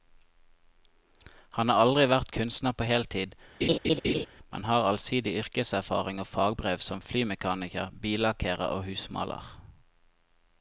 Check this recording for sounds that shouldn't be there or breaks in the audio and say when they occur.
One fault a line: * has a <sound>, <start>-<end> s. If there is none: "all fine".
* has a laugh, 3.6-4.3 s